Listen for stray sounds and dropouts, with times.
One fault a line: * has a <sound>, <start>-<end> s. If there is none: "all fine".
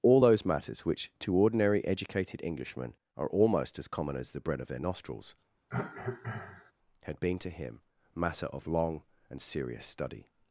* has a cough, 5.7-6.7 s